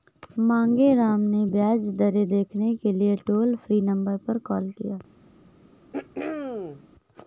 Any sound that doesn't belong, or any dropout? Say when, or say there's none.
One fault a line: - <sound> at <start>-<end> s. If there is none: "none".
- throat clearing at 5.9-6.8 s